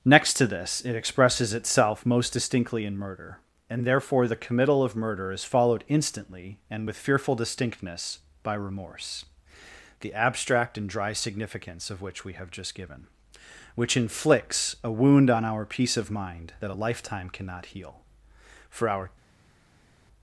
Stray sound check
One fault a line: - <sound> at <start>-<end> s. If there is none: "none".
none